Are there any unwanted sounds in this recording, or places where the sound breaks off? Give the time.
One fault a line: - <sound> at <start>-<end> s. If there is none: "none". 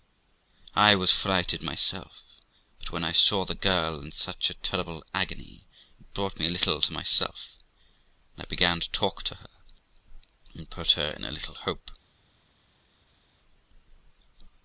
none